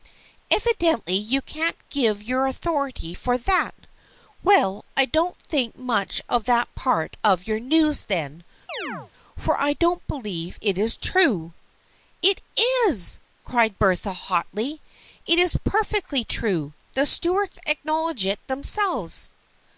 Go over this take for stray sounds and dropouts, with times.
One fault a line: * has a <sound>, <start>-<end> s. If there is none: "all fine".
* has a chirp, 8.7-9.1 s